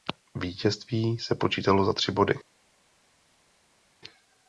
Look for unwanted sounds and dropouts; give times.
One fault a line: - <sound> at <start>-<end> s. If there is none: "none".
none